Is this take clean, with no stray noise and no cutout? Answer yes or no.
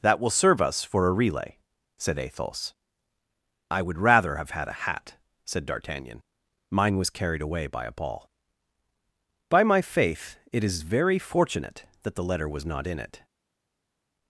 yes